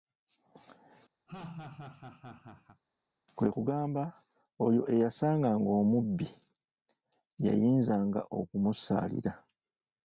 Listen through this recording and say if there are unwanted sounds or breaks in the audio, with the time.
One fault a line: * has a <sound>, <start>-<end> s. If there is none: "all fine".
* has a laugh, 1.3-2.8 s